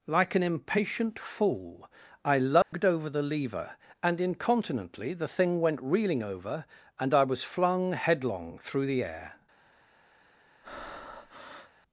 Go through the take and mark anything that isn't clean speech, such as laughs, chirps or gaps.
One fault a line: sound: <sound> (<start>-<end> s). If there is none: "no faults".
sound: dropout (2.6-2.7 s)
sound: breath (10.6-11.7 s)